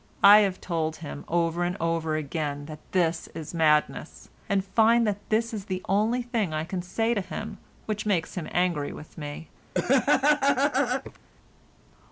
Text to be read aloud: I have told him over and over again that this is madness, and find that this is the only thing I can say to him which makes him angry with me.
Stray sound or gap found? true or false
true